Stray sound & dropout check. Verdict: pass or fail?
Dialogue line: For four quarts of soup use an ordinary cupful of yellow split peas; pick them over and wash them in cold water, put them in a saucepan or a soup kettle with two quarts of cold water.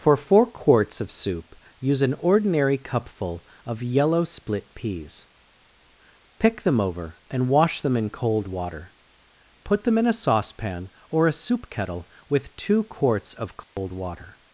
fail